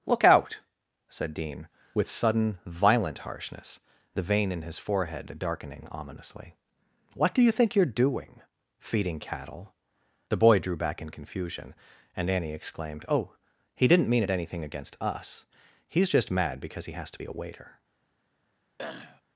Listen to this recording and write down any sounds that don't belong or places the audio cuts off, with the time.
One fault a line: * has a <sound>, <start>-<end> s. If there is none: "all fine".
* has a throat clearing, 18.8-19.2 s